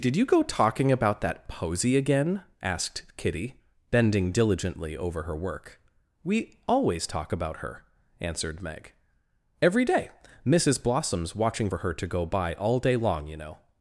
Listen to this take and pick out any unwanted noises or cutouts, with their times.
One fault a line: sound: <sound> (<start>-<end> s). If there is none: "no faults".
no faults